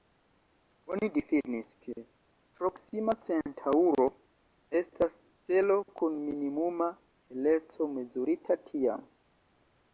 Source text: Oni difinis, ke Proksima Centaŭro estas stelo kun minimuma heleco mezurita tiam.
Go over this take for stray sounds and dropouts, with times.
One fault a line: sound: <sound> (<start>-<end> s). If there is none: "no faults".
no faults